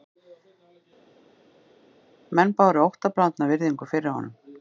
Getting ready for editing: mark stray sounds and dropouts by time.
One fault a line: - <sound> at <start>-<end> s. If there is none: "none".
none